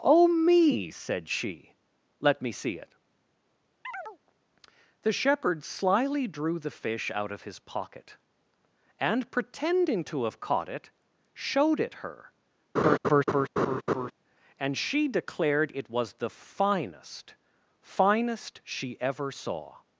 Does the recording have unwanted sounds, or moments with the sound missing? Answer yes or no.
yes